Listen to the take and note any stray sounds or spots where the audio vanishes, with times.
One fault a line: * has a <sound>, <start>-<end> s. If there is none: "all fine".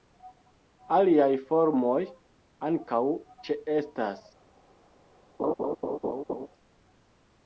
* has a laugh, 5.4-6.5 s